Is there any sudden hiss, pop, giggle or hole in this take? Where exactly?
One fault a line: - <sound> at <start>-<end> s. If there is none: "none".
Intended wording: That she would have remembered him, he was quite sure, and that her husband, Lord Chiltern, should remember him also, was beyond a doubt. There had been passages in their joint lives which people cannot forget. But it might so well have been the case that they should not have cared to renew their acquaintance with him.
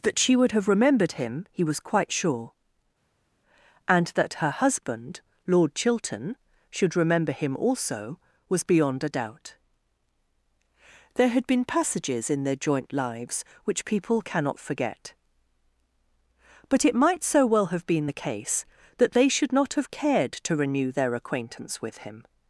none